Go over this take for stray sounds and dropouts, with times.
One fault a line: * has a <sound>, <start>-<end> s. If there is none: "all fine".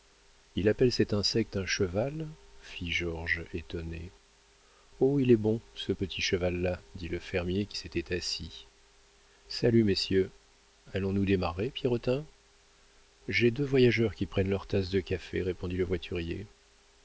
all fine